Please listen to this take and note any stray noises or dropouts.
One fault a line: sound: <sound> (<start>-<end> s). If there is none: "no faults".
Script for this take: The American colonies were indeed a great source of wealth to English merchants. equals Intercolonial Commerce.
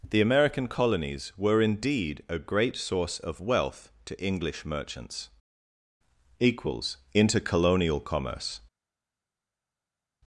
no faults